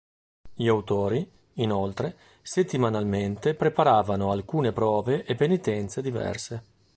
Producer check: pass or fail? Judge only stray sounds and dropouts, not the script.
pass